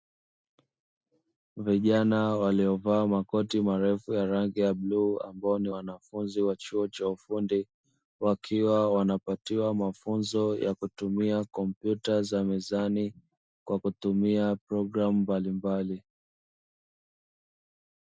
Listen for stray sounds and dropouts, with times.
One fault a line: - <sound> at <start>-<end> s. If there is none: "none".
none